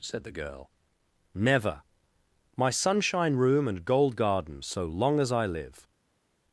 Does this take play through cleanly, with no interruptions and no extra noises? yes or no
yes